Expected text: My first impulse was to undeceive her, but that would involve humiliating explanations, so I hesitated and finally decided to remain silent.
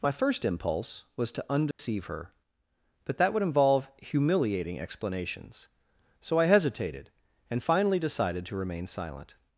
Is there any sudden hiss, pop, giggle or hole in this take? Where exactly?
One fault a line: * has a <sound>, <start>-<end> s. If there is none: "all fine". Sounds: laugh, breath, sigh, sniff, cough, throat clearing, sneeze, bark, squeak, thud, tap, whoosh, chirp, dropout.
* has a dropout, 1.7-1.8 s